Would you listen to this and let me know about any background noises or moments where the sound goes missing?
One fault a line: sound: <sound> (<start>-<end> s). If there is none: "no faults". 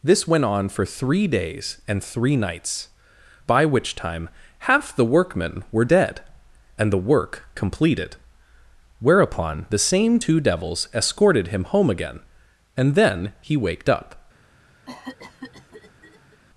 sound: cough (14.8-16.4 s)